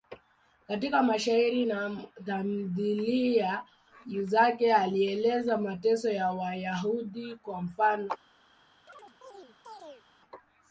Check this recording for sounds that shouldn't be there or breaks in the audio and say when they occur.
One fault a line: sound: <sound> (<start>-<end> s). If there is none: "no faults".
sound: chirp (8.9-10.1 s)